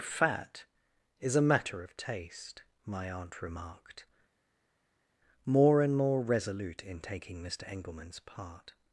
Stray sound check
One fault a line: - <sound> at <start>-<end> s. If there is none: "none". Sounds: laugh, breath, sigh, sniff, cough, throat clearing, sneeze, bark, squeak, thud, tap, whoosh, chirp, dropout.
none